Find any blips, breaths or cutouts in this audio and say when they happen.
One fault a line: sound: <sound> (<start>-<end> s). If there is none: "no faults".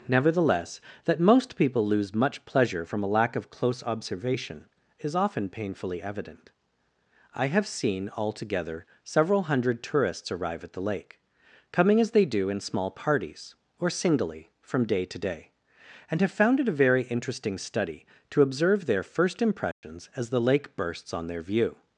sound: dropout (19.7-19.8 s)